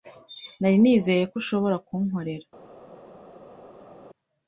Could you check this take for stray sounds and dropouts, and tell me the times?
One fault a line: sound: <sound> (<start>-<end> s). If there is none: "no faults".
no faults